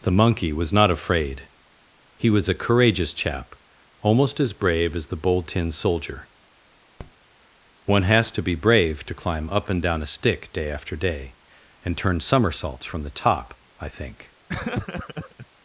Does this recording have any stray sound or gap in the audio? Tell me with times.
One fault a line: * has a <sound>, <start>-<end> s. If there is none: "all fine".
* has a tap, 7.0-7.1 s
* has a laugh, 14.5-15.5 s